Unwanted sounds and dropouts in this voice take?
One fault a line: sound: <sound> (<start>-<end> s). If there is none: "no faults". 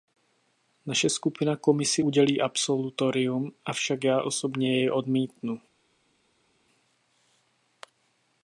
no faults